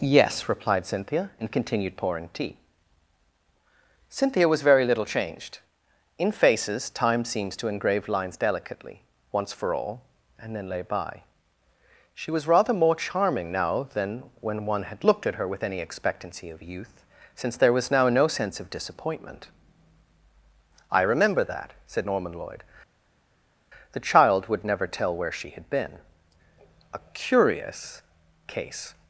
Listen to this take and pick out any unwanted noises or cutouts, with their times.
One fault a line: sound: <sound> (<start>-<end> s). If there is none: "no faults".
no faults